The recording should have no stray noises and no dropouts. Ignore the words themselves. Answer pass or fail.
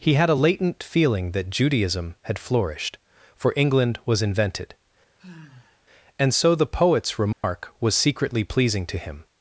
fail